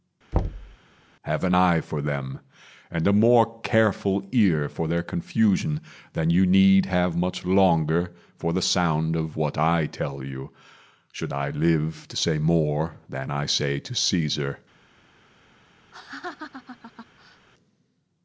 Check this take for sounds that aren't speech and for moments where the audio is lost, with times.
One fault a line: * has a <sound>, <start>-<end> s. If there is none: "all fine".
* has a thud, 0.3-0.8 s
* has a laugh, 15.9-17.5 s